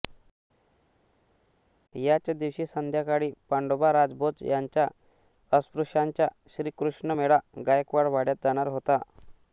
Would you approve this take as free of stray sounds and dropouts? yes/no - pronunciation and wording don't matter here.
yes